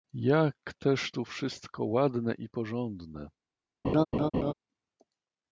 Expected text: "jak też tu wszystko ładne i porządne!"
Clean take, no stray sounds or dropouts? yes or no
no